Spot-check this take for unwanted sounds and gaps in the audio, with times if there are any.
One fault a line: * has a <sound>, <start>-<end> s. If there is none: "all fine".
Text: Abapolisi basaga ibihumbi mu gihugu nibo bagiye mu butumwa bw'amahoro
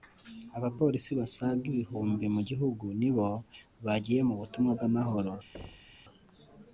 * has a thud, 5.5-6.0 s